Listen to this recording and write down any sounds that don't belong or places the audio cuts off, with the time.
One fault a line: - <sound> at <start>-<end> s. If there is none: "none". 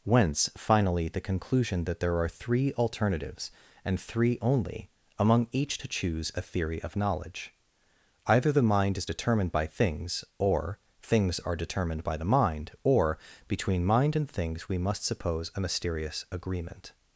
none